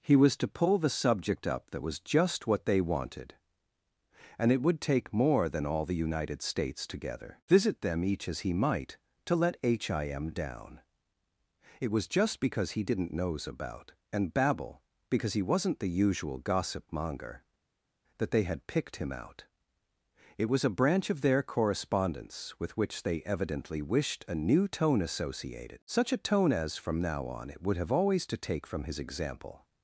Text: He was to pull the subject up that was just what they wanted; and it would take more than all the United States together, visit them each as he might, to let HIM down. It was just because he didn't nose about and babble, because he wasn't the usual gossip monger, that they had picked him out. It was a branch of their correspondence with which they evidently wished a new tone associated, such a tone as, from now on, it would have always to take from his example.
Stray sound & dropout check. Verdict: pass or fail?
pass